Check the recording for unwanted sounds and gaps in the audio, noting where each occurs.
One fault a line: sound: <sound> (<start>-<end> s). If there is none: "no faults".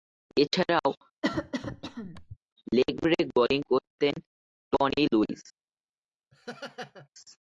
sound: cough (1.2-2.4 s)
sound: laugh (6.3-7.1 s)